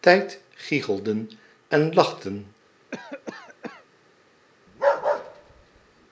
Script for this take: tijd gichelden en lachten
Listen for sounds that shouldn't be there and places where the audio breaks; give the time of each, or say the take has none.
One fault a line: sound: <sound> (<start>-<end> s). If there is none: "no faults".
sound: cough (2.9-3.9 s)
sound: bark (4.7-6.1 s)